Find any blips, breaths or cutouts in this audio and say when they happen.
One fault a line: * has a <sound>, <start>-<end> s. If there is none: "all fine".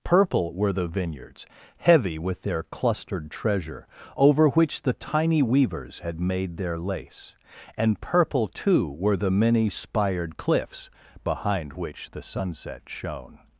all fine